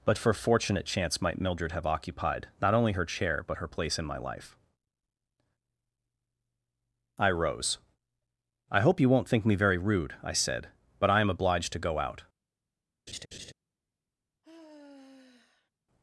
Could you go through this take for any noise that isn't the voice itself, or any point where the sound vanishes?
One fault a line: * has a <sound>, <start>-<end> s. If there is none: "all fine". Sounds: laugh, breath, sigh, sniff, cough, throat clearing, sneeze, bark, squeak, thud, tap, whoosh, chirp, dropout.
* has a laugh, 13.1-13.5 s
* has a sigh, 14.4-15.7 s